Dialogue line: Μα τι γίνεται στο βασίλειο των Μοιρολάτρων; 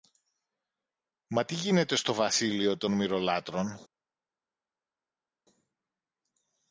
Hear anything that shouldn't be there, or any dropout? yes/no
no